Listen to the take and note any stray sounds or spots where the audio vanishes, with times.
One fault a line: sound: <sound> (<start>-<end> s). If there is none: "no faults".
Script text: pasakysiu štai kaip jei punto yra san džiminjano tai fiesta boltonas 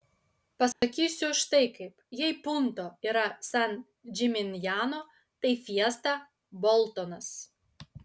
sound: dropout (0.7-0.8 s)